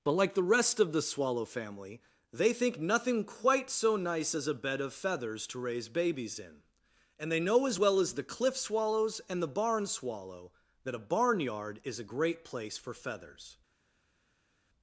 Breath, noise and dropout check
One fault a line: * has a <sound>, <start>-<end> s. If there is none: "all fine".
all fine